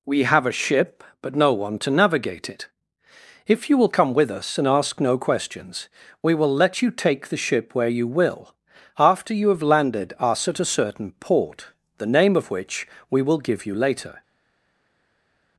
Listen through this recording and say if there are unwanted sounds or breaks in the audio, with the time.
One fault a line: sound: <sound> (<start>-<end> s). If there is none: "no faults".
no faults